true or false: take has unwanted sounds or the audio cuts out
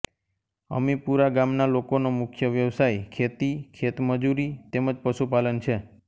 false